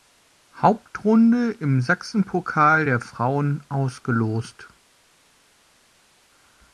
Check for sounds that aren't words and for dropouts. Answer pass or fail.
pass